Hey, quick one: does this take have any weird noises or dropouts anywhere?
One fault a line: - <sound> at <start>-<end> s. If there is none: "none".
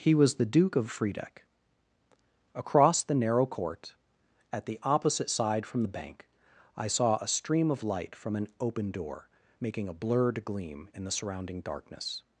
none